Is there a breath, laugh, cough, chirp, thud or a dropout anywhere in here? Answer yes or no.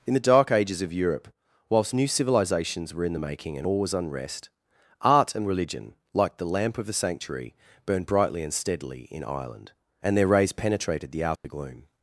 yes